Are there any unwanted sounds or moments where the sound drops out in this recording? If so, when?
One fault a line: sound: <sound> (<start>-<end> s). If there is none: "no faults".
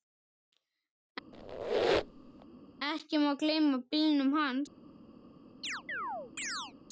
sound: squeak (1.3-2.5 s)
sound: chirp (5.6-6.7 s)